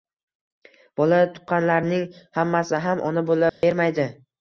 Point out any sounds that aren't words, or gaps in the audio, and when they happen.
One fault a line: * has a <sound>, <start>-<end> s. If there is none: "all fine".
* has a dropout, 3.5-3.6 s